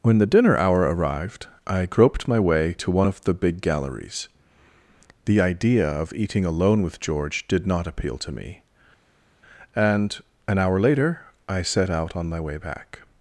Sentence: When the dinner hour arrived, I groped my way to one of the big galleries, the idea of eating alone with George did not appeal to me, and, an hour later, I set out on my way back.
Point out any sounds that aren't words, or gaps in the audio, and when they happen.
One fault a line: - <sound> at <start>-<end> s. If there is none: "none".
none